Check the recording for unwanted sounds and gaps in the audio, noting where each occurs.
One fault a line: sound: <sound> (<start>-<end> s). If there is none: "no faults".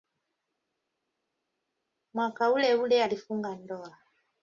no faults